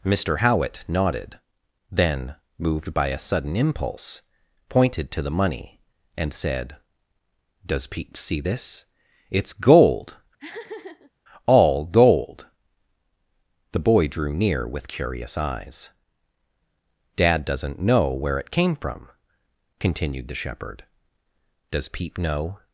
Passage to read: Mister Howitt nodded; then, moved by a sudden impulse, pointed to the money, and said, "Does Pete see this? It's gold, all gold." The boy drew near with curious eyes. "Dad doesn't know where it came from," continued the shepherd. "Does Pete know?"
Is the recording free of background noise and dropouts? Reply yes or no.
no